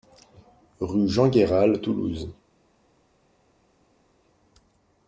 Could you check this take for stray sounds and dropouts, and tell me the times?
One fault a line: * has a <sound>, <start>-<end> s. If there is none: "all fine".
all fine